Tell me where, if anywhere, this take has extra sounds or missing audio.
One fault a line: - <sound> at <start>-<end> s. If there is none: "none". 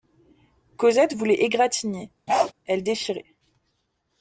- bark at 2.3-2.5 s